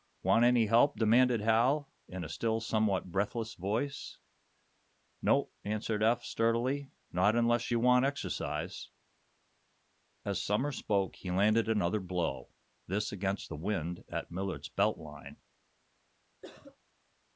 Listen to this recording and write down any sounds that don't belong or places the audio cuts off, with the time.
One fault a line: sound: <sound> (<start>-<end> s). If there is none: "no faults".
sound: cough (16.4-16.8 s)